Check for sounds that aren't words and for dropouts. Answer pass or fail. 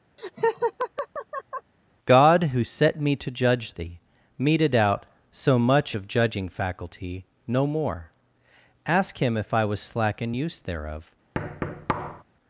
fail